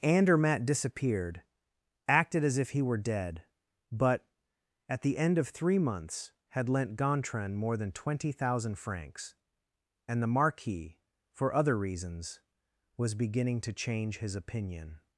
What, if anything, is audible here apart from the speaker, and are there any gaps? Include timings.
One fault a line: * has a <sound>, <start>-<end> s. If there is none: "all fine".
all fine